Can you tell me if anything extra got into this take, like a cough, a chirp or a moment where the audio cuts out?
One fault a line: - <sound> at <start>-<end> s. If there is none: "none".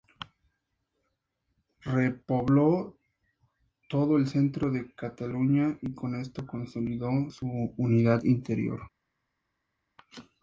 none